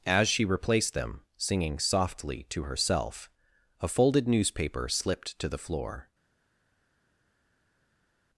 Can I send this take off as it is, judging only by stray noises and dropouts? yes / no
yes